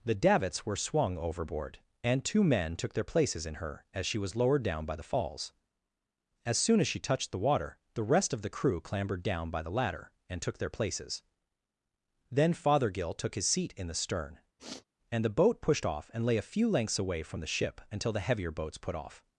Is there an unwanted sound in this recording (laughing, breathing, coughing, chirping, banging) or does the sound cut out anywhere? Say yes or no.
yes